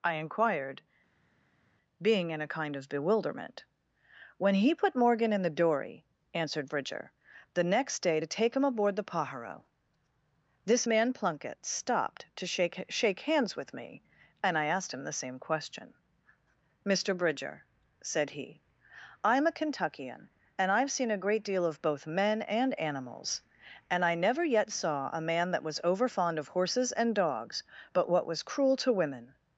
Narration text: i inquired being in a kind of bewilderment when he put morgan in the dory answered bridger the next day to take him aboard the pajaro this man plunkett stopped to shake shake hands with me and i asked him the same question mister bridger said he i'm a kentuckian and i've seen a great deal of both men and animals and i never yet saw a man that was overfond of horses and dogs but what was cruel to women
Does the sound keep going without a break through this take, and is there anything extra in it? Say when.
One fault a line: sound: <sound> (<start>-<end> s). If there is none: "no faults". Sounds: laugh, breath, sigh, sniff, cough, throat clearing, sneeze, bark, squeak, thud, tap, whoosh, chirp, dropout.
no faults